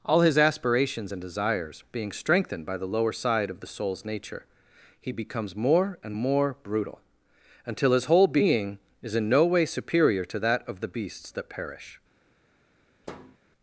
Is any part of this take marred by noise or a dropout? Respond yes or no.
yes